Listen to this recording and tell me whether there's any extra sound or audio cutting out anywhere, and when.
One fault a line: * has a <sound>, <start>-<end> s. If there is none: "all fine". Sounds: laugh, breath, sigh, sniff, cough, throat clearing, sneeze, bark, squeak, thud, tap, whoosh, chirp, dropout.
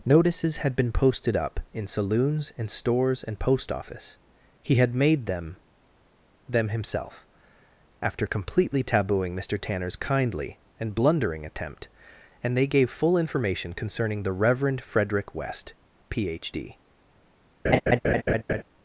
* has a laugh, 17.6-18.6 s